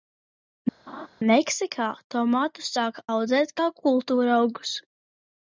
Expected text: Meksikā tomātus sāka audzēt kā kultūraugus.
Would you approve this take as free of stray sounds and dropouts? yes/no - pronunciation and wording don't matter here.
no